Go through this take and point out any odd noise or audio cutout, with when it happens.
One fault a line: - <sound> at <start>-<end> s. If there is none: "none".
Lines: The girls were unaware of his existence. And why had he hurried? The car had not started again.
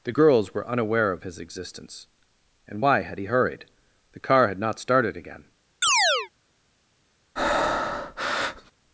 - chirp at 5.8-6.3 s
- breath at 7.4-8.7 s